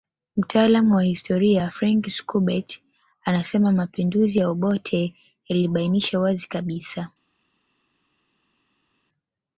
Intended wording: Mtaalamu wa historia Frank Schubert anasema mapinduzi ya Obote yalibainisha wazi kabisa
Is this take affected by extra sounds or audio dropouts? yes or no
no